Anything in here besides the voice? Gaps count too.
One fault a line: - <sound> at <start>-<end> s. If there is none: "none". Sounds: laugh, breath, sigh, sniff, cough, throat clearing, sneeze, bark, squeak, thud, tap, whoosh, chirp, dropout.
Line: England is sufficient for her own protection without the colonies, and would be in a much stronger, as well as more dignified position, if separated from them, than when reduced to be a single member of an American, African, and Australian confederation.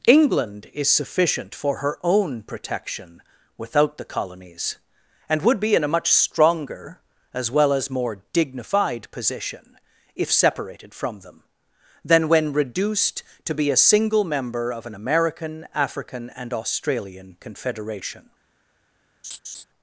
- laugh at 19.2-19.6 s